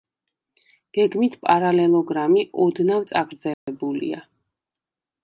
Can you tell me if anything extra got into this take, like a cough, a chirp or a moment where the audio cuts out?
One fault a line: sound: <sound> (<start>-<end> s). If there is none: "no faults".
sound: dropout (3.5-3.7 s)